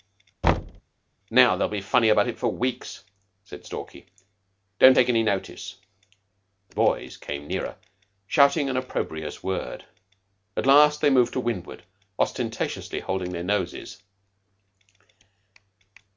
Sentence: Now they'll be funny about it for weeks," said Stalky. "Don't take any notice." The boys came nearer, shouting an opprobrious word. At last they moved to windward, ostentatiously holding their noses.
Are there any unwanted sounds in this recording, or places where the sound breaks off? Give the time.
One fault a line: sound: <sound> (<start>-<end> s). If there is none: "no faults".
sound: thud (0.4-0.8 s)